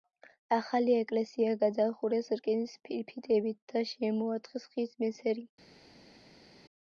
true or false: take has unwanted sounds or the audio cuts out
false